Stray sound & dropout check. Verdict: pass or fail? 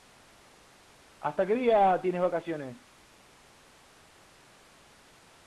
pass